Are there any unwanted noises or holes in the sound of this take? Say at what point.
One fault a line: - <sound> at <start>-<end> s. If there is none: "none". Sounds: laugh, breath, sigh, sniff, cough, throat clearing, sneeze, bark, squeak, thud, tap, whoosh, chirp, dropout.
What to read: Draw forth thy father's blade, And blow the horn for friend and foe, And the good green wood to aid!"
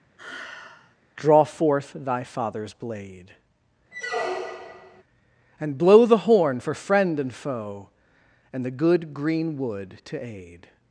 - sigh at 0.2-1.0 s
- squeak at 3.9-5.0 s